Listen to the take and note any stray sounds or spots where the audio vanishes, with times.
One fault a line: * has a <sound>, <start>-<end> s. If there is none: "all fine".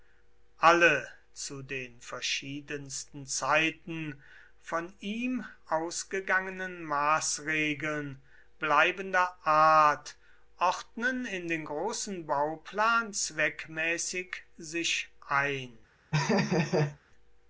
* has a laugh, 16.1-17.0 s